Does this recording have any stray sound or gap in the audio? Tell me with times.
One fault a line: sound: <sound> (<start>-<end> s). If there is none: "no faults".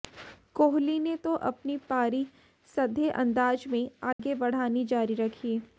sound: dropout (4.1-4.2 s)